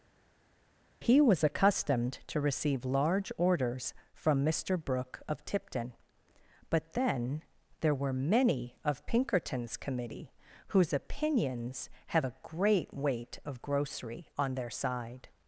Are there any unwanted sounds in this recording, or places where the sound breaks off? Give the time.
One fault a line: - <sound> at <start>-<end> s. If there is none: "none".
none